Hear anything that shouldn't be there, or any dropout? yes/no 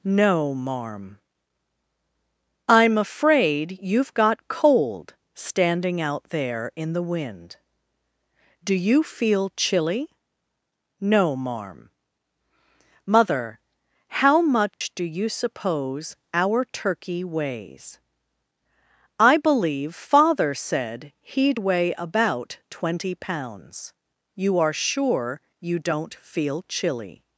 yes